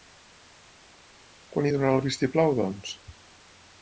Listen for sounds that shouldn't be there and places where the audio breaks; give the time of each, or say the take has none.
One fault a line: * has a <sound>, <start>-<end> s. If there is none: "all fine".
all fine